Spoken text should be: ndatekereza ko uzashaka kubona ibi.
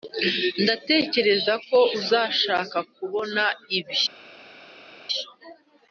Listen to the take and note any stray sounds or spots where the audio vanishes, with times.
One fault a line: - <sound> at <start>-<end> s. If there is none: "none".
none